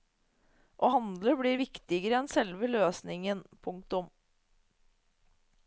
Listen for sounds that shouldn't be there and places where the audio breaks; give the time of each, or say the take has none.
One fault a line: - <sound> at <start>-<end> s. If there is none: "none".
none